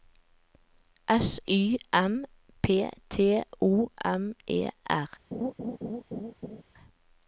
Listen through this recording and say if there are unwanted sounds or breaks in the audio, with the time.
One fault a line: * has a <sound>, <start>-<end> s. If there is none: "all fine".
* has a laugh, 5.3-6.6 s